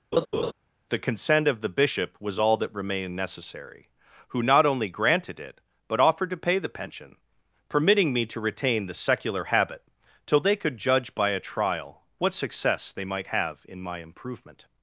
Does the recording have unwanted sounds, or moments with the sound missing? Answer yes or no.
yes